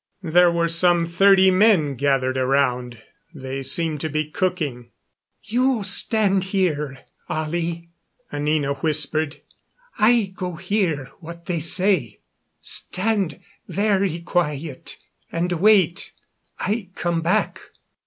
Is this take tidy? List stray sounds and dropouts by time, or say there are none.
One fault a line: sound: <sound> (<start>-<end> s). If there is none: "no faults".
no faults